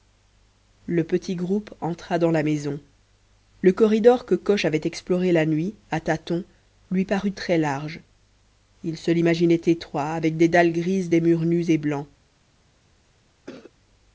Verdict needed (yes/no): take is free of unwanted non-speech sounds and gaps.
no